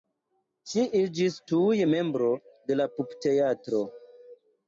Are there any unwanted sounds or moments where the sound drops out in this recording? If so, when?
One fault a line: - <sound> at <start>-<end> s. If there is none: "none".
none